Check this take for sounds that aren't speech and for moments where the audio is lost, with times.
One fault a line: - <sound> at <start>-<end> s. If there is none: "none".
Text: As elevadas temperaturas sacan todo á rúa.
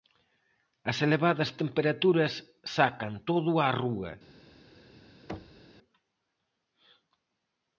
- thud at 5.3-5.7 s